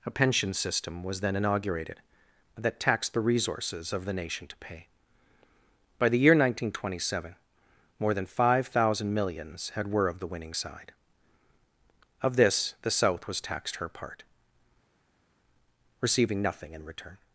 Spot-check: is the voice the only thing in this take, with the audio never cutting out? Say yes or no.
yes